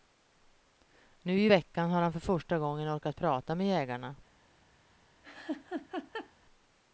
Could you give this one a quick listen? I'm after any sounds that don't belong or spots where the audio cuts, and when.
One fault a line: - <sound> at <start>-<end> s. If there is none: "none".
- laugh at 5.2-6.3 s